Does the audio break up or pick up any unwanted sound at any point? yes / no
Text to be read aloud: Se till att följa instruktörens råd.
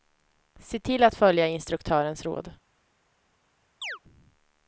yes